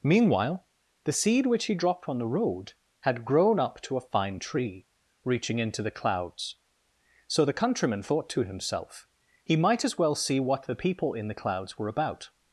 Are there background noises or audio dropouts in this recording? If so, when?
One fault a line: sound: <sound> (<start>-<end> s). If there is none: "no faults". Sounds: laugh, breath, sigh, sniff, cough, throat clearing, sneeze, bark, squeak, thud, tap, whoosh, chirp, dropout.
no faults